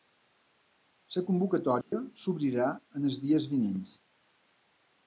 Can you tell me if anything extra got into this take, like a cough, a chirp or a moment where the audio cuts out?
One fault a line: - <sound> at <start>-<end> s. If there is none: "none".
- dropout at 1.8-1.9 s